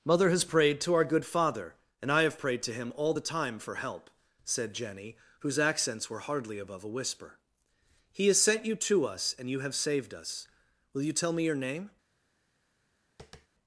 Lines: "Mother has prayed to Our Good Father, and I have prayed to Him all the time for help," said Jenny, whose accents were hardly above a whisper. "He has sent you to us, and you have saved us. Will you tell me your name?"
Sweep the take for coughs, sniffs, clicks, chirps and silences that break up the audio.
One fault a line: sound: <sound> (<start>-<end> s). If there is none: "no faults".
sound: tap (13.2-13.5 s)